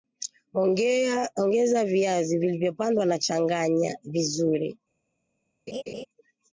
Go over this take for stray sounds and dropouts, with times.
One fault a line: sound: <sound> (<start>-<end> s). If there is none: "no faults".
sound: laugh (5.7-6.1 s)